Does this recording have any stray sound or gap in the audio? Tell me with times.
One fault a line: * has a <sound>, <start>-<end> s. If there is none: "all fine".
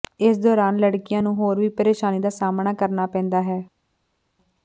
all fine